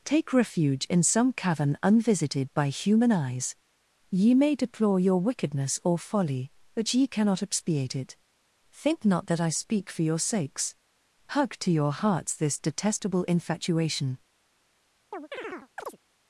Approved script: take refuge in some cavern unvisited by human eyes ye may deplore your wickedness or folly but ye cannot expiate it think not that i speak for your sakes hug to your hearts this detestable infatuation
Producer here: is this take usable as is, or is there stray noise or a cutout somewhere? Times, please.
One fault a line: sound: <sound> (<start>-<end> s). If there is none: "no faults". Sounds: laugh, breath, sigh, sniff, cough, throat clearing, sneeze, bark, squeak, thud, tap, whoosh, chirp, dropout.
sound: chirp (15.1-16.0 s)